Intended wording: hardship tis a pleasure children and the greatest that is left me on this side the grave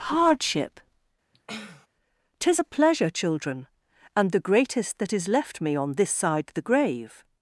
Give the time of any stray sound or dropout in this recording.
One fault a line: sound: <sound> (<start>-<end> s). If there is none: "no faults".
sound: sniff (1.3-1.9 s)